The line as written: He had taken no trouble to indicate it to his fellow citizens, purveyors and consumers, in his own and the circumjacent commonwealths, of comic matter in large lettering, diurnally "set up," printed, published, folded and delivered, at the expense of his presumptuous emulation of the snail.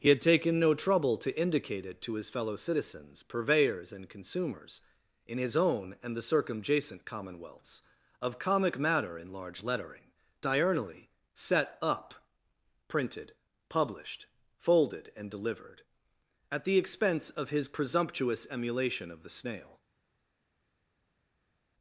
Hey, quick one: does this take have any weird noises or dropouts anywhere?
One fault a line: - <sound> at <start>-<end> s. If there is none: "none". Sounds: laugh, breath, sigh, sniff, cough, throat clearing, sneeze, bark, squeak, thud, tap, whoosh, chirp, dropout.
none